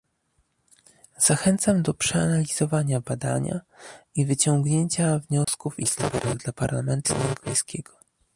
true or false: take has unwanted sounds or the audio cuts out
true